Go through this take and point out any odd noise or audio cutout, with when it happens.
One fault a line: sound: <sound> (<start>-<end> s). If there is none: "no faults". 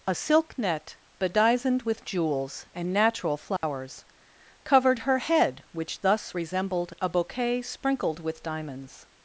sound: dropout (3.6-3.6 s)